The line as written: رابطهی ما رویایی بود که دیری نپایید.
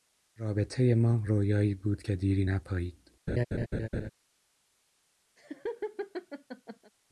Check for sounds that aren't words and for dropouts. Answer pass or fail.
fail